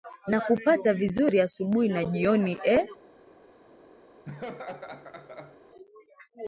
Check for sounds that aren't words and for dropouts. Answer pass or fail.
fail